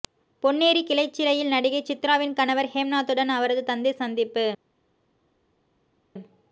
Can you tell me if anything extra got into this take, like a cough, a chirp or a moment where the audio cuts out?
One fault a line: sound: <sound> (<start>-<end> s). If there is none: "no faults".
no faults